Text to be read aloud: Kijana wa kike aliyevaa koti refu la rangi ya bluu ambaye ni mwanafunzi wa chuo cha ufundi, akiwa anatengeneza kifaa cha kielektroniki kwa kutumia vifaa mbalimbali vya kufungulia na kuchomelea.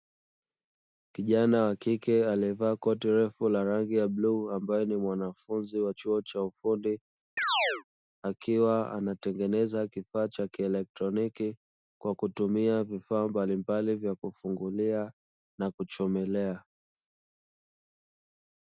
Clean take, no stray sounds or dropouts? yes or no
no